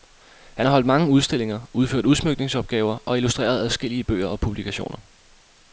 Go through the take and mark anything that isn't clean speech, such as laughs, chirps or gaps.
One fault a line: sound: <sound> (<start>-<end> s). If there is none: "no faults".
no faults